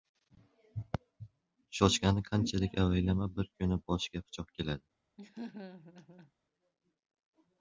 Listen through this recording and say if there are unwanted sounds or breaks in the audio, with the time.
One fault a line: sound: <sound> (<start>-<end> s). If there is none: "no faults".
sound: laugh (5.2-6.3 s)